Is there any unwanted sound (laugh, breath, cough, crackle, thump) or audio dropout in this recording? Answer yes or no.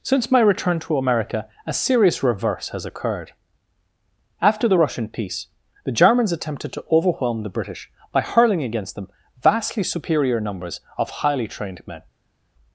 no